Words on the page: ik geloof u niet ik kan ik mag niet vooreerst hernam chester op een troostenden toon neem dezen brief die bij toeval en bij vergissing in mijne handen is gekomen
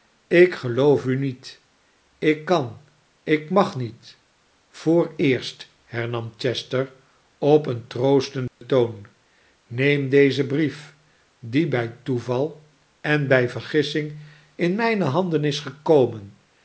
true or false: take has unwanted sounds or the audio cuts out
true